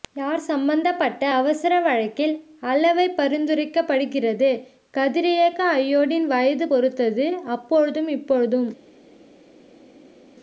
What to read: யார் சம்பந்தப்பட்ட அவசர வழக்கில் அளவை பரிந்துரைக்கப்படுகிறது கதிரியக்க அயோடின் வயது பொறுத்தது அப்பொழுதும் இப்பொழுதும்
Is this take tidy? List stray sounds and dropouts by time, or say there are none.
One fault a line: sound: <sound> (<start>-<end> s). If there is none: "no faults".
no faults